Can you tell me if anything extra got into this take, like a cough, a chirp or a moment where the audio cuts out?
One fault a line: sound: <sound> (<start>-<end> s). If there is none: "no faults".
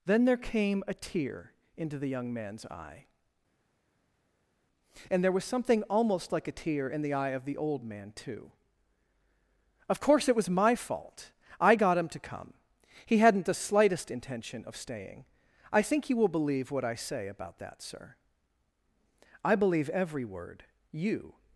no faults